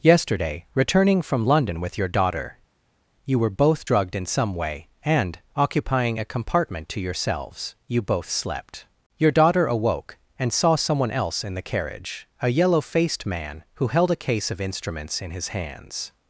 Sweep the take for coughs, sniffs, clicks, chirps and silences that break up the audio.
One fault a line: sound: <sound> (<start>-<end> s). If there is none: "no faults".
no faults